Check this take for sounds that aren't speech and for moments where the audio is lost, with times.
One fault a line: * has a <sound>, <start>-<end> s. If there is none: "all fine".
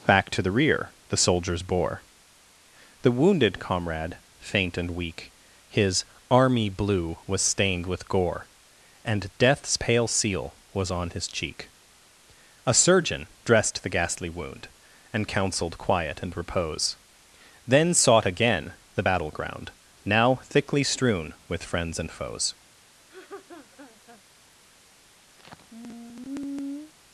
* has a laugh, 23.1-24.2 s
* has a sigh, 25.4-26.9 s